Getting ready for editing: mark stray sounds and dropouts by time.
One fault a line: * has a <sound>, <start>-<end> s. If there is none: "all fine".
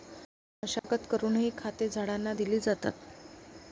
* has a dropout, 0.8-0.8 s